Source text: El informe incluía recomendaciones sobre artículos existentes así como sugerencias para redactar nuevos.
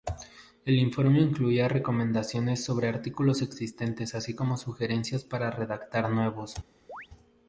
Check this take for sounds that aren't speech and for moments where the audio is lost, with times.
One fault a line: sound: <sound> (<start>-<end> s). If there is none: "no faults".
sound: chirp (6.9-7.1 s)